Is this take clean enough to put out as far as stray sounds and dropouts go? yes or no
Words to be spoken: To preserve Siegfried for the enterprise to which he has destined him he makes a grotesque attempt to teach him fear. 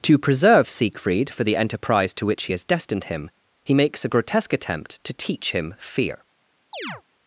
no